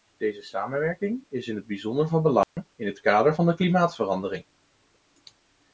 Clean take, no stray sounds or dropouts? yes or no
no